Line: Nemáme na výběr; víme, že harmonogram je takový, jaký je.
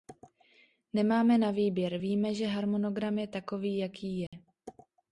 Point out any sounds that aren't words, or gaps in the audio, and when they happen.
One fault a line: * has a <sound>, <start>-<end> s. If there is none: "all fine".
* has a dropout, 4.3-4.3 s